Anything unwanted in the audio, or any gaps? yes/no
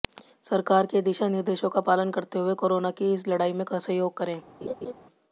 yes